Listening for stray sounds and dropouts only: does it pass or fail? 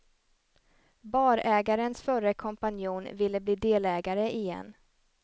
pass